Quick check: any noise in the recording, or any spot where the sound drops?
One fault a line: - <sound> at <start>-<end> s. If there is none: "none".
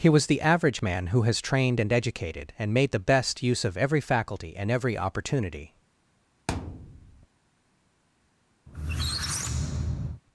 - thud at 6.5-7.3 s
- squeak at 8.7-10.2 s